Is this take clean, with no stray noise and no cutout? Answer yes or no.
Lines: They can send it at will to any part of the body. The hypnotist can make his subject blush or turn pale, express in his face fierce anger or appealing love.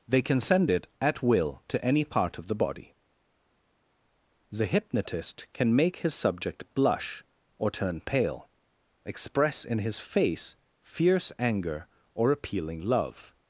yes